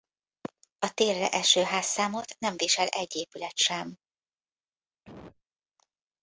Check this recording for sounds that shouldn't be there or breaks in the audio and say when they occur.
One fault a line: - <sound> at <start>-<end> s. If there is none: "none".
- cough at 5.0-5.4 s